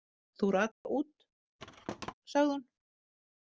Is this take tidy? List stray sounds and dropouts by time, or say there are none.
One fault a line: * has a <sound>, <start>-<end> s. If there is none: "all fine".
* has a dropout, 0.7-0.8 s
* has a thud, 1.6-2.1 s